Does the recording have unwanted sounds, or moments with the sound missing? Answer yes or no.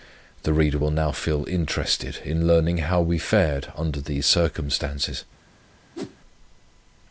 yes